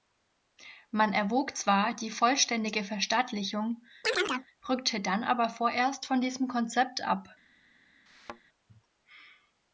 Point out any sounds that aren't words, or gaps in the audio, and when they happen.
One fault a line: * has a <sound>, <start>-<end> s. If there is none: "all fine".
* has a chirp, 4.0-4.5 s
* has a thud, 8.1-8.4 s